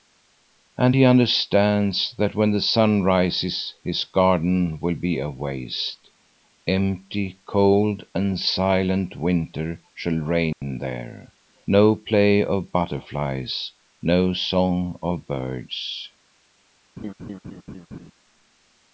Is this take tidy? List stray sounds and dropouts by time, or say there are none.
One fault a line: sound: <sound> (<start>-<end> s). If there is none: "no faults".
sound: dropout (10.5-10.6 s)
sound: laugh (17.0-18.1 s)